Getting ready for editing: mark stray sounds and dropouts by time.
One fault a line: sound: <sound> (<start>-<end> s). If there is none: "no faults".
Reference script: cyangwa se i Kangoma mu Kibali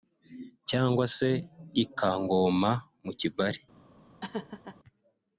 sound: laugh (4.2-4.8 s)